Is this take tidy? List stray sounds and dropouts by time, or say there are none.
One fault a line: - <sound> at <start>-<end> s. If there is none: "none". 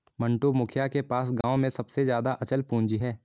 - dropout at 1.4-1.4 s